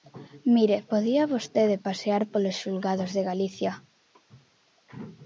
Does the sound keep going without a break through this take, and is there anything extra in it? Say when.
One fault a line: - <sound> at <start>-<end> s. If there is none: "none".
none